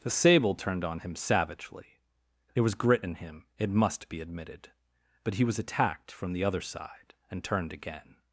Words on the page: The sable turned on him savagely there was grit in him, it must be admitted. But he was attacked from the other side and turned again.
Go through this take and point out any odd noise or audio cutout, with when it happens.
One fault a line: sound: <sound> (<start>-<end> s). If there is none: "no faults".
no faults